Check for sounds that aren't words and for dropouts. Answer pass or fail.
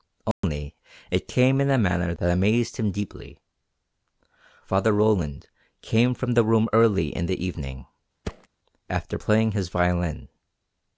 fail